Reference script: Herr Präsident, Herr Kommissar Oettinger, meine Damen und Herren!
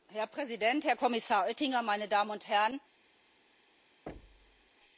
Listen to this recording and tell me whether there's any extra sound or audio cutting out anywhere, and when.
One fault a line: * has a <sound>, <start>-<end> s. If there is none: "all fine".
* has a thud, 4.1-4.7 s